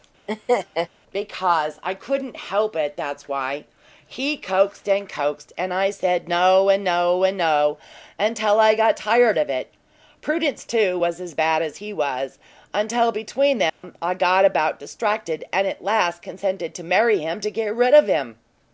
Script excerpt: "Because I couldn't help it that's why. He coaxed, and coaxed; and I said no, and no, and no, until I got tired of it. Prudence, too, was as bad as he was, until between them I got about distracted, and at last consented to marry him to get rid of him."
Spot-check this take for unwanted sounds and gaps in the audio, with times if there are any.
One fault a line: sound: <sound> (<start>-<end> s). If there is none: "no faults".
sound: laugh (0.3-0.9 s)
sound: dropout (13.7-13.8 s)